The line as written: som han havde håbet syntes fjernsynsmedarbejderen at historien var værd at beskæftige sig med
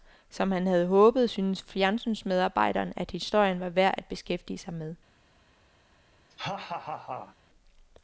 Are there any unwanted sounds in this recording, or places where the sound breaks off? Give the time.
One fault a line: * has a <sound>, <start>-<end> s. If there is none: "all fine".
* has a laugh, 6.3-7.4 s